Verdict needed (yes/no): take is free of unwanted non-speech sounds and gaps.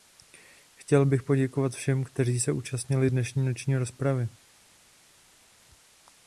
yes